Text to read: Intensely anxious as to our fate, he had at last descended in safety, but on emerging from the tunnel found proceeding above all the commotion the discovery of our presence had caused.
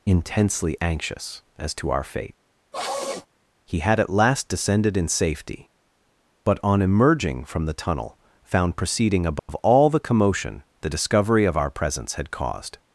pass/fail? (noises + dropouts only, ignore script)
fail